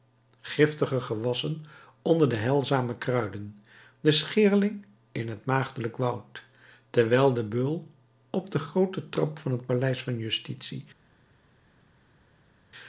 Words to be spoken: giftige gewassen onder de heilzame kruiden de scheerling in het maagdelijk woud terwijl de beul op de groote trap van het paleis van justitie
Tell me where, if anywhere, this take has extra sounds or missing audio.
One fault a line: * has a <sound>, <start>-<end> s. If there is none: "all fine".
all fine